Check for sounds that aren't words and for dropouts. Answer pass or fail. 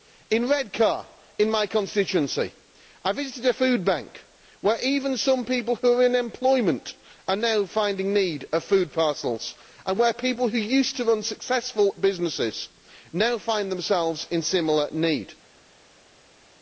pass